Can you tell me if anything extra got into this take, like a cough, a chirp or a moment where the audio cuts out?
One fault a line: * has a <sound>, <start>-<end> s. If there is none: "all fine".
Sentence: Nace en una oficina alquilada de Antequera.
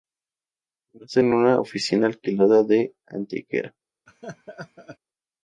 * has a laugh, 4.1-5.0 s